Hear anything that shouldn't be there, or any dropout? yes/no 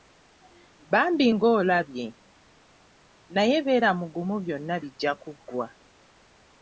no